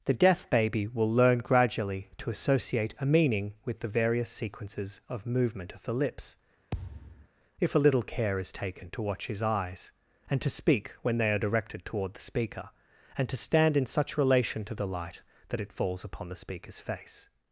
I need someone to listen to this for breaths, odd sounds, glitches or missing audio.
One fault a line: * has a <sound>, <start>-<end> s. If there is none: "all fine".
* has a thud, 6.7-7.3 s